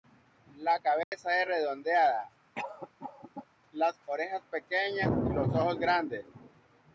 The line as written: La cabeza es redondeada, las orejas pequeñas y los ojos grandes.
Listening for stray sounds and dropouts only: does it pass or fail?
fail